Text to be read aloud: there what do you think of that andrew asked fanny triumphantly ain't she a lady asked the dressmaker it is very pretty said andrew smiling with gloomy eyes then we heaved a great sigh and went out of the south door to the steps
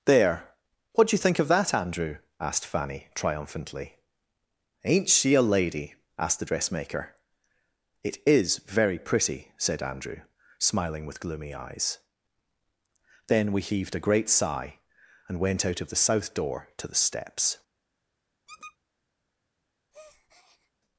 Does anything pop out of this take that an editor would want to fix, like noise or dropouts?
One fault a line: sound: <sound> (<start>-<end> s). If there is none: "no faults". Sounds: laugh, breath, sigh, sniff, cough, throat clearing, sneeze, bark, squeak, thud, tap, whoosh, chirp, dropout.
sound: squeak (18.5-18.8 s)
sound: breath (19.9-20.7 s)